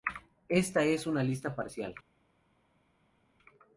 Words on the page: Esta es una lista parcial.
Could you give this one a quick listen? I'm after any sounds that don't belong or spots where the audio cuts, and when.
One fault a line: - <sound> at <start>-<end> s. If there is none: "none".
none